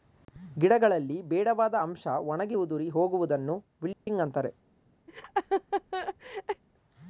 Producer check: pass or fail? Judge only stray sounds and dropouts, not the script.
fail